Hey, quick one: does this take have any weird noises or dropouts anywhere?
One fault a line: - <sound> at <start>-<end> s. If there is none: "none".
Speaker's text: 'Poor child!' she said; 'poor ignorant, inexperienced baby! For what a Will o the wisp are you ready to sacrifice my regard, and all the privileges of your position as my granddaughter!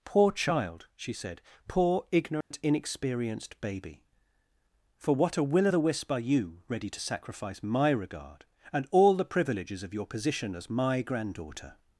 - dropout at 2.4-2.5 s